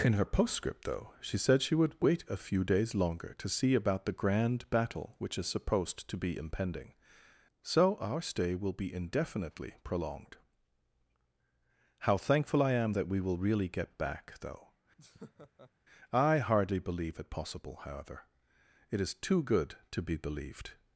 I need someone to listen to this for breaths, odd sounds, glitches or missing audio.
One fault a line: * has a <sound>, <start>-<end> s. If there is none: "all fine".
* has a laugh, 15.0-15.7 s